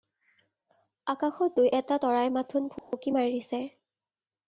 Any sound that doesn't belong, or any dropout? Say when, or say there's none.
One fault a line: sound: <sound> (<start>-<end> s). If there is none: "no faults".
sound: dropout (2.8-2.9 s)